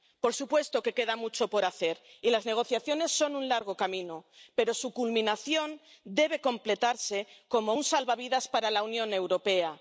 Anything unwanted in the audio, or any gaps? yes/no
no